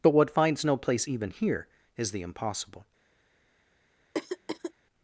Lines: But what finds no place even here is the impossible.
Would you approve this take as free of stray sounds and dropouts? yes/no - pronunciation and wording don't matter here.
no